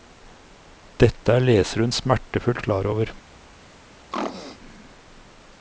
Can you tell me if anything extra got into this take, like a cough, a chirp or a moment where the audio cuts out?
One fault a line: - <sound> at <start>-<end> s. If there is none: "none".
- throat clearing at 4.1-4.6 s